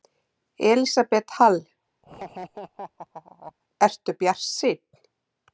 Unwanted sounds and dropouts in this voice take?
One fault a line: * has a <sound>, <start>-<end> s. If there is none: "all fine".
* has a laugh, 2.0-3.5 s